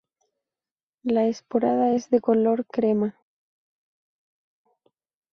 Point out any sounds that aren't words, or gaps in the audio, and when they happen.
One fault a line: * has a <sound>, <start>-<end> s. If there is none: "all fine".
all fine